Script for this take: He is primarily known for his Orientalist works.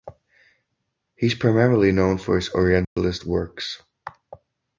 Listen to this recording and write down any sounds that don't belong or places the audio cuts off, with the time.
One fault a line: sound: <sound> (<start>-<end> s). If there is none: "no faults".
sound: dropout (2.8-3.0 s)